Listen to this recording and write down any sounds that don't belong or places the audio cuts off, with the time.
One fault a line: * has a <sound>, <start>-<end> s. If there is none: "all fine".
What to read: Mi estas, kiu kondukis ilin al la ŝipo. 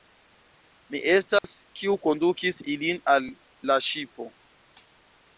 * has a dropout, 1.4-1.4 s